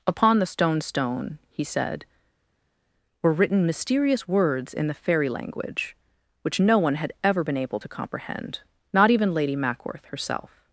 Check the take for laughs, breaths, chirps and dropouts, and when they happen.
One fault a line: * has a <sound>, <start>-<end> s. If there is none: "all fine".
all fine